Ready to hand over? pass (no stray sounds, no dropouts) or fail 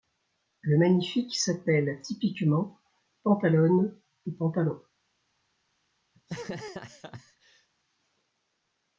fail